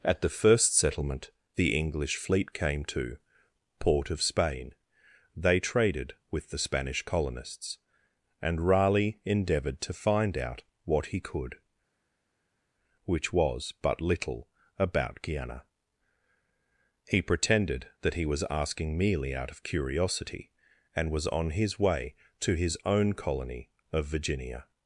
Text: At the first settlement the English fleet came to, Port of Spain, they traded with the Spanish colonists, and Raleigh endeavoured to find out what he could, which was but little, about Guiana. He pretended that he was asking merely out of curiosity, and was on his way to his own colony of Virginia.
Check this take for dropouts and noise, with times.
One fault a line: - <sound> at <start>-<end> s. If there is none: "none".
none